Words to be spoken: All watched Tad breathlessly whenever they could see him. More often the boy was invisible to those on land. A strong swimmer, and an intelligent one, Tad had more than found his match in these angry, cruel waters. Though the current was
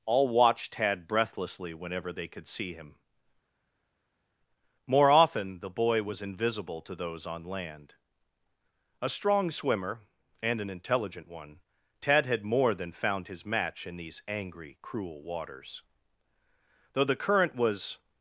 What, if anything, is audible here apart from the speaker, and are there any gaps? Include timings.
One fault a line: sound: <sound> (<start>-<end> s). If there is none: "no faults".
no faults